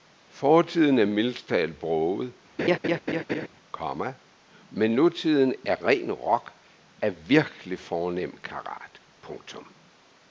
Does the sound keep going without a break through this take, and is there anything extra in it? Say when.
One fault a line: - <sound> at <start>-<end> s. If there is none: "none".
- laugh at 2.6-3.5 s